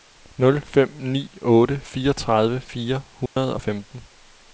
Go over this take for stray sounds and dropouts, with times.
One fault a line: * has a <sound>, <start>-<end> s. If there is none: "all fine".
* has a dropout, 3.3-3.4 s